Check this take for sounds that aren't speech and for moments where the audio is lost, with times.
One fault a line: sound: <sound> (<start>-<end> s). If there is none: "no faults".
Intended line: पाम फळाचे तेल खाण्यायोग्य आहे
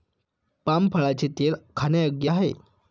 no faults